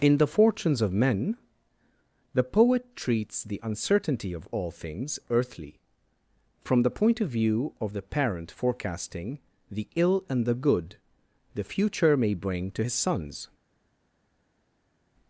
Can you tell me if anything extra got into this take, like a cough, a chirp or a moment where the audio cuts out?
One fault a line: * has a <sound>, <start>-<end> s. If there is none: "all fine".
all fine